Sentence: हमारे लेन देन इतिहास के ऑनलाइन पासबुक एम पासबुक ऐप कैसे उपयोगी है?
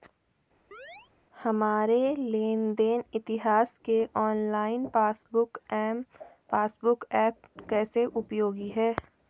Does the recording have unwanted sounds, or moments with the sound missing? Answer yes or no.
yes